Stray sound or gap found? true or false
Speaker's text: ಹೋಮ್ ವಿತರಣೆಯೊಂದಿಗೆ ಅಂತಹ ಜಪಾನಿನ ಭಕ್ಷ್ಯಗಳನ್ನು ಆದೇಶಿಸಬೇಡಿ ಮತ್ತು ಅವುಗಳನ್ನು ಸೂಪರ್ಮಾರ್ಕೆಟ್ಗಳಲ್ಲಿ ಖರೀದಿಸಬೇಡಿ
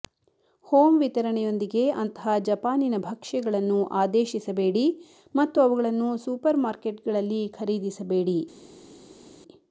false